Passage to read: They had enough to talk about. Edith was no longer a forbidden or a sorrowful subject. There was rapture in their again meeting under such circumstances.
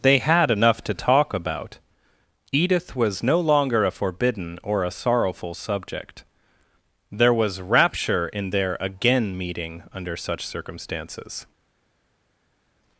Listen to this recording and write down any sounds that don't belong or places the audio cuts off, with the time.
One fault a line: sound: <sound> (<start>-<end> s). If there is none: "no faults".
no faults